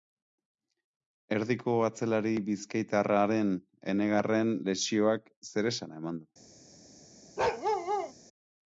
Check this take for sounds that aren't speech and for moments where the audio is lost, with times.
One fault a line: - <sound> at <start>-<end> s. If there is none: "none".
- bark at 7.4-8.1 s